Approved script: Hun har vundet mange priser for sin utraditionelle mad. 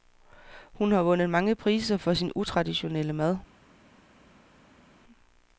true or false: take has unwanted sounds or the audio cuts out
false